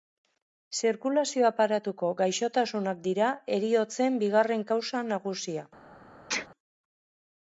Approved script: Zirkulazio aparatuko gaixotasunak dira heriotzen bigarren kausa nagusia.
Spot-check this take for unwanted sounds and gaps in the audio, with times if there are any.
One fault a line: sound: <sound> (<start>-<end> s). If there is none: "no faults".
sound: sneeze (6.3-6.5 s)